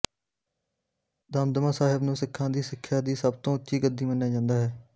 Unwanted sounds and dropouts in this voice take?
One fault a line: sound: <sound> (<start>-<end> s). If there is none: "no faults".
no faults